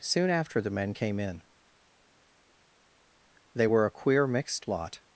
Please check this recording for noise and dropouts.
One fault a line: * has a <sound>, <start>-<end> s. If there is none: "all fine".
all fine